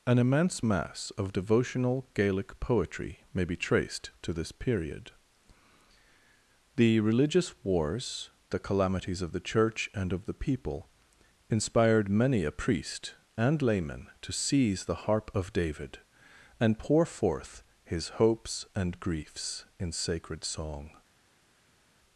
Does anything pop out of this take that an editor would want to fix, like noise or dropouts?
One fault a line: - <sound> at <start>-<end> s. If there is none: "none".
none